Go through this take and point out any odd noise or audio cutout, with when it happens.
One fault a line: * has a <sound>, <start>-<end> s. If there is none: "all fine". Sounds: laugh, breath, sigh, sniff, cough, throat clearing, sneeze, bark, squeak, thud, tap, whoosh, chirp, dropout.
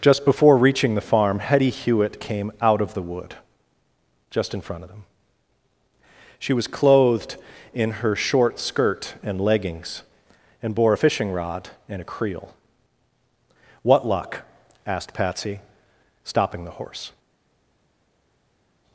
all fine